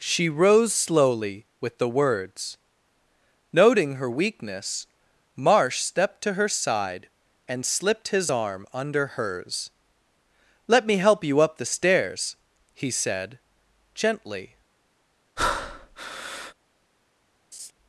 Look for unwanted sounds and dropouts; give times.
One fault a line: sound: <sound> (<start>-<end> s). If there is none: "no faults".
sound: breath (15.4-16.5 s)
sound: laugh (17.5-17.7 s)